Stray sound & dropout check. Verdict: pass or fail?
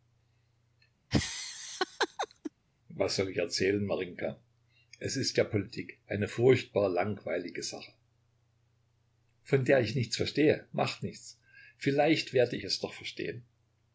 fail